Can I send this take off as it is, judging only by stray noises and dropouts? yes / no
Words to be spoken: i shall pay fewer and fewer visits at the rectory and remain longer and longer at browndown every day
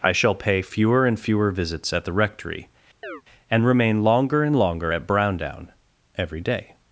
no